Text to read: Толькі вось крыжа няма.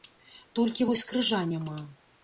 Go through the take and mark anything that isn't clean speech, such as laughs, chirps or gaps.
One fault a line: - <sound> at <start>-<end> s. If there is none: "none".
none